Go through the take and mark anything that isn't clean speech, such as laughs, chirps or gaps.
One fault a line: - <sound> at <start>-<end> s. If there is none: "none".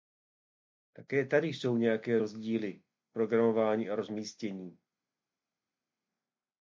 none